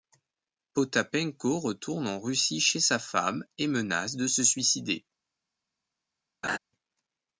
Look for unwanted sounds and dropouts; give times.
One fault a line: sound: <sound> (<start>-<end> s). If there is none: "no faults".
sound: laugh (6.4-6.6 s)